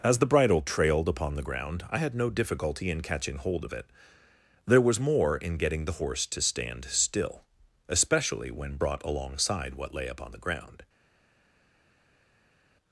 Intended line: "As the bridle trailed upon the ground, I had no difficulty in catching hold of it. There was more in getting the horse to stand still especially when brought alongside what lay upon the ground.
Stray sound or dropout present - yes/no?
no